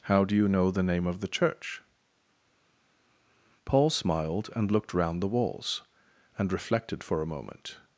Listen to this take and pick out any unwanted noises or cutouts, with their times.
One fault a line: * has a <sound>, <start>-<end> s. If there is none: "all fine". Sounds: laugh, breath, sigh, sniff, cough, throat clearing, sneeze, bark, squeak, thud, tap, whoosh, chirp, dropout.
all fine